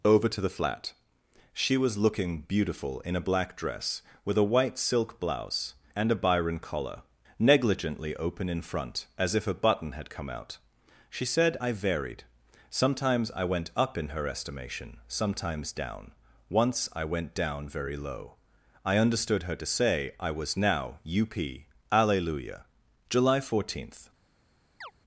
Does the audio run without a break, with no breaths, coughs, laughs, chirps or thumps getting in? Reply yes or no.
no